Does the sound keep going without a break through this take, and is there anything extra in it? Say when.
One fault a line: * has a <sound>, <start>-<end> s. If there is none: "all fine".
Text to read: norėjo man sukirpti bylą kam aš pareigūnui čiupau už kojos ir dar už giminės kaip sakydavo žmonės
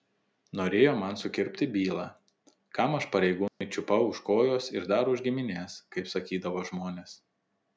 * has a dropout, 3.5-3.6 s